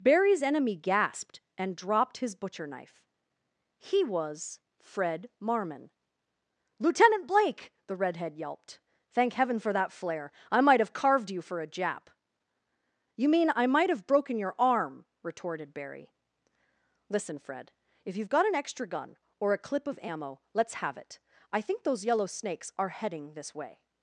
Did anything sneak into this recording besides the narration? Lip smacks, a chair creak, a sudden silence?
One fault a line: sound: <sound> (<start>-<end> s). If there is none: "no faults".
no faults